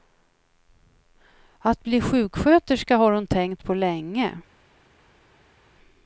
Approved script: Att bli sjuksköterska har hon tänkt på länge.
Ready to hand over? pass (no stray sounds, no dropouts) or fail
pass